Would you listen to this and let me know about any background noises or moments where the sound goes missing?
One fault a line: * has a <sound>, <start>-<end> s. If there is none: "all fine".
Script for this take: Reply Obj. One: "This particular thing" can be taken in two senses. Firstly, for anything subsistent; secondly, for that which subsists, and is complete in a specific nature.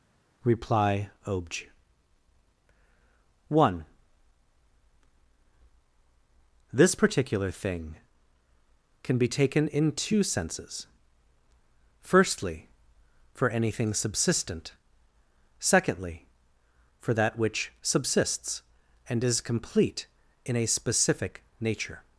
all fine